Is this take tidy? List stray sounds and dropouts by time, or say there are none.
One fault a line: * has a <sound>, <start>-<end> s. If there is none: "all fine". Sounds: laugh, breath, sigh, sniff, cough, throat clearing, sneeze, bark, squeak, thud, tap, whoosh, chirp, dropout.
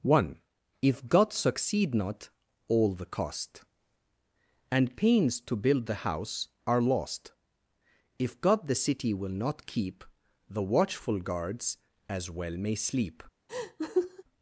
* has a laugh, 13.5-14.2 s